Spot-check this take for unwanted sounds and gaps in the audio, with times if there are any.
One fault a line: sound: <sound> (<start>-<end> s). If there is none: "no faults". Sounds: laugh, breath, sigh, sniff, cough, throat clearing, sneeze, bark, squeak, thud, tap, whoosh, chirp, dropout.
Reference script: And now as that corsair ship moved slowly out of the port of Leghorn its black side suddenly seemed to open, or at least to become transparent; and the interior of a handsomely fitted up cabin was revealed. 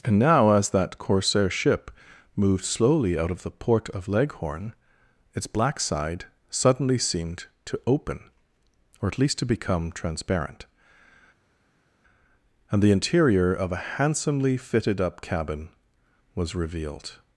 no faults